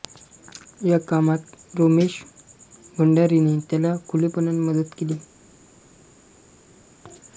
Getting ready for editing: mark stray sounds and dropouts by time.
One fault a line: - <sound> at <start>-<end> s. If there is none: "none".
none